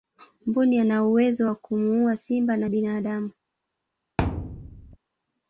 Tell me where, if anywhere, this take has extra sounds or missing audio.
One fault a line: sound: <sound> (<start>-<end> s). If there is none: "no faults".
sound: thud (4.2-5.0 s)